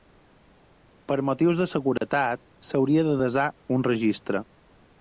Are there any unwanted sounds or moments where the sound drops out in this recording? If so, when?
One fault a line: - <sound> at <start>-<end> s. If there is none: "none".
- dropout at 2.0-2.0 s